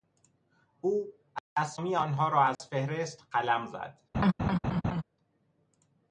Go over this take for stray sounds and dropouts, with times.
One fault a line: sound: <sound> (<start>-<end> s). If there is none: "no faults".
sound: dropout (2.5-2.6 s)
sound: laugh (4.1-5.0 s)